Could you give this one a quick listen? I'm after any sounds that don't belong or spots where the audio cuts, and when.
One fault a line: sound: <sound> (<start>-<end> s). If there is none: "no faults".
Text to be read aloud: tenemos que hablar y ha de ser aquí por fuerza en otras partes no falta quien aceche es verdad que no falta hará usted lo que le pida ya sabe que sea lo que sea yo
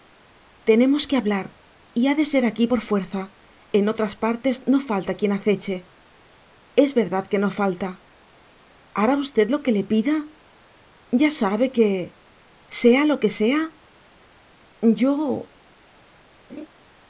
sound: laugh (16.5-16.7 s)